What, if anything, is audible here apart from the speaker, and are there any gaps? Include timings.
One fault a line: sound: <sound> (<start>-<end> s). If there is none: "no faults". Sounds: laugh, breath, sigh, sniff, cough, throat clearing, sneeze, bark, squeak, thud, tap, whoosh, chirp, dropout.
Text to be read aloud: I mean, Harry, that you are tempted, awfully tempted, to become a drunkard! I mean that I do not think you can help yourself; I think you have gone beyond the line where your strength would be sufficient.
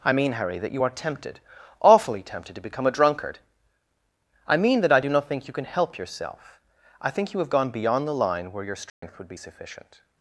sound: dropout (8.9-9.0 s)